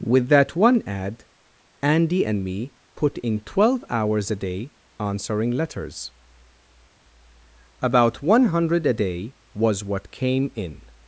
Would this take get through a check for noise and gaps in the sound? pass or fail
pass